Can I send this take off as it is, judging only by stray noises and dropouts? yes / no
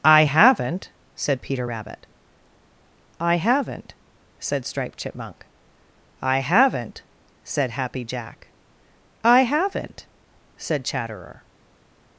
yes